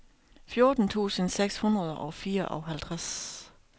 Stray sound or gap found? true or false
false